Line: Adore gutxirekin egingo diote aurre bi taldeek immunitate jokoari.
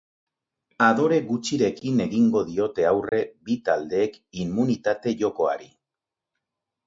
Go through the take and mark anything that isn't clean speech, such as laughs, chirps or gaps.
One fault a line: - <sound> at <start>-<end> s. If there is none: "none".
- dropout at 3.1-3.1 s